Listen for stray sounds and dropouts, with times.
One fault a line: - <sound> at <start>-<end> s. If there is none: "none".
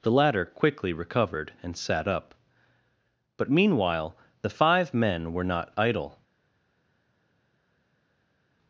none